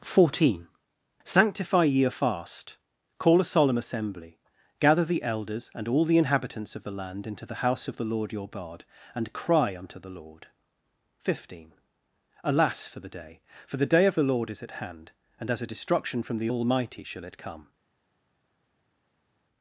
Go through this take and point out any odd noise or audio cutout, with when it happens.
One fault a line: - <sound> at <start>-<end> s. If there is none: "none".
none